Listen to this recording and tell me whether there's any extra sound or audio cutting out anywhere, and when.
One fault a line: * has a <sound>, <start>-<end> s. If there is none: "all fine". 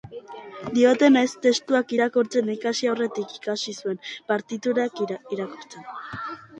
all fine